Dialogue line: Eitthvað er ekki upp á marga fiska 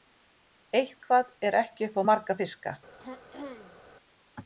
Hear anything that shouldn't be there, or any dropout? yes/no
yes